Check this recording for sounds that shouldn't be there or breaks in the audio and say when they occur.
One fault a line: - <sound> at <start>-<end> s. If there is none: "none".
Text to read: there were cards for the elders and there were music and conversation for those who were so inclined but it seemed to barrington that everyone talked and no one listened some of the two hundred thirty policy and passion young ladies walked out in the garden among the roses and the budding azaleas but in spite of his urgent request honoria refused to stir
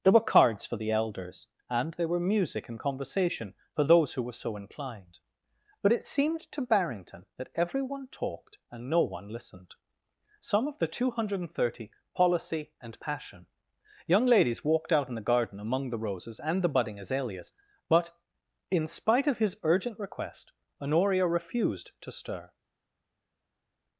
none